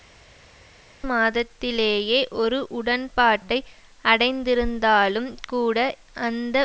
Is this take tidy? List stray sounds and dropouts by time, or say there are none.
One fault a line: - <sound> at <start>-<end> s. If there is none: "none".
none